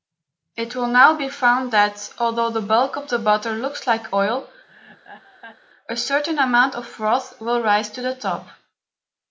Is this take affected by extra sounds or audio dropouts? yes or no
yes